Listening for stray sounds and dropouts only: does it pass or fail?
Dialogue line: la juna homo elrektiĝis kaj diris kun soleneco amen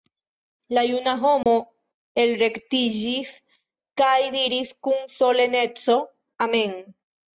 fail